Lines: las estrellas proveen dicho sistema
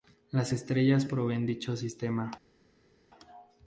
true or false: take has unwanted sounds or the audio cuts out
false